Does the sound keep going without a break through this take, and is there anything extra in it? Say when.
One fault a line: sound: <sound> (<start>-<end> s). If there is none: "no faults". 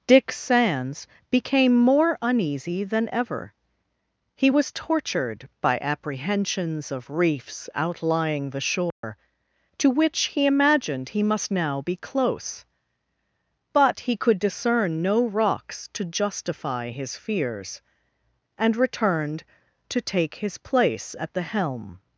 sound: dropout (8.9-9.0 s)